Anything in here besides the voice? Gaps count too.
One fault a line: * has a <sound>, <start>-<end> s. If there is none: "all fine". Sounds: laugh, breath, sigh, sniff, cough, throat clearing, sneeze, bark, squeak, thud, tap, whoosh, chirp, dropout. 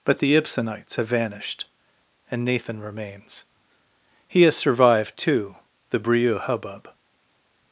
all fine